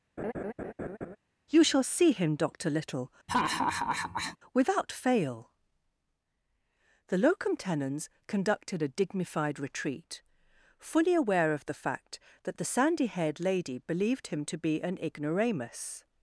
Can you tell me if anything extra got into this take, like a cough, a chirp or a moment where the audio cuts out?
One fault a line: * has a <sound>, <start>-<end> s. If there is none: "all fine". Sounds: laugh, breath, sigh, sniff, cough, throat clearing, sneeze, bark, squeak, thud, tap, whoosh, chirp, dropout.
* has a laugh, 0.2-1.2 s
* has a laugh, 3.3-4.4 s